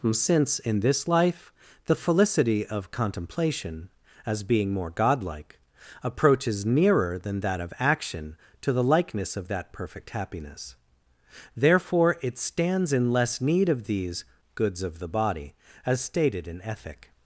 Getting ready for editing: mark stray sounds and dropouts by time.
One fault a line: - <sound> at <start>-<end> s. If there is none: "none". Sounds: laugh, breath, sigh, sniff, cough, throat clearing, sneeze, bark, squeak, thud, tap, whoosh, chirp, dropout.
none